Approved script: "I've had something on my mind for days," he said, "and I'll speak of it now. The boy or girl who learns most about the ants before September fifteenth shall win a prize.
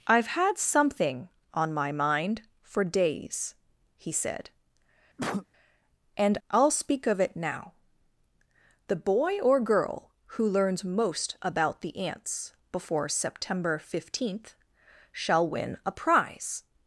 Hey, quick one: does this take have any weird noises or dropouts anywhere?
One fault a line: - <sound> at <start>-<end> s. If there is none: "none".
- cough at 5.2-5.5 s